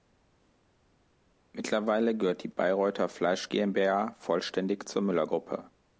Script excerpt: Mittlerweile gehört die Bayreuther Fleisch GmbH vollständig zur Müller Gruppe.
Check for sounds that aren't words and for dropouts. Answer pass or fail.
pass